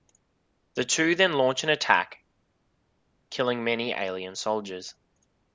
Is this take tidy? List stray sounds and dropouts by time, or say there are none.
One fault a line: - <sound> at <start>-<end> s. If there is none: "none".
none